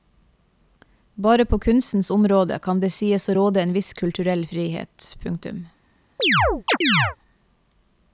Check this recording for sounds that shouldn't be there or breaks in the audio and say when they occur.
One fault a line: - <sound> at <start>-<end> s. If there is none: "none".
- chirp at 6.2-7.2 s